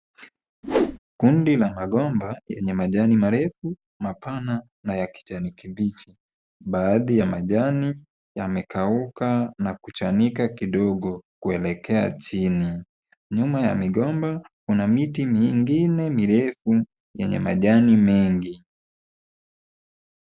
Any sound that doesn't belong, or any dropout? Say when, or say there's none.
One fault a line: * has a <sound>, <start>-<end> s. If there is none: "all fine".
* has a whoosh, 0.6-1.0 s